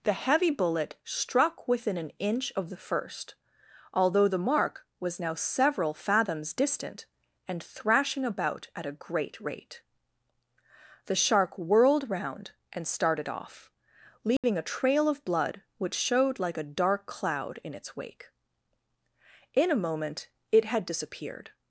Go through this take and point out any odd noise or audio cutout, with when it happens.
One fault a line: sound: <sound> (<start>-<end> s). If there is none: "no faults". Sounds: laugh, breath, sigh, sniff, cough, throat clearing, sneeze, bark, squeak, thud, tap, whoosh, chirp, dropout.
sound: dropout (14.4-14.4 s)